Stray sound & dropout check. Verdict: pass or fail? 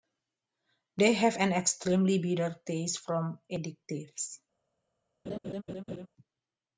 fail